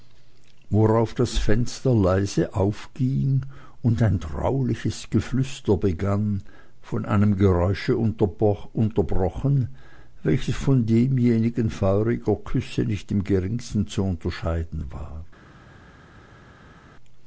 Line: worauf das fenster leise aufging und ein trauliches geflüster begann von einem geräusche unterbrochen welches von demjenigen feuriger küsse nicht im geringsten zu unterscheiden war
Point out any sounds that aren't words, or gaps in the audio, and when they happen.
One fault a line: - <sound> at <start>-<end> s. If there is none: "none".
none